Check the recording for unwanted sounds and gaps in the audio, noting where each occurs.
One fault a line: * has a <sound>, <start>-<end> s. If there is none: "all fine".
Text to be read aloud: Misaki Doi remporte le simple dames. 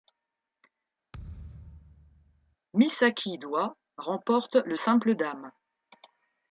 * has a thud, 1.1-2.6 s